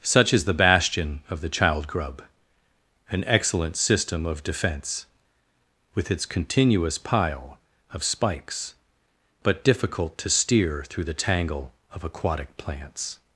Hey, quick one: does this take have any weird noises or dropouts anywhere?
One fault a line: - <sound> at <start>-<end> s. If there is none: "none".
none